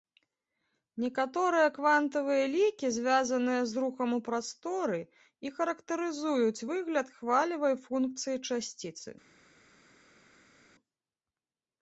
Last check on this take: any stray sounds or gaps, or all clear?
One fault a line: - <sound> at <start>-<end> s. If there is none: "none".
none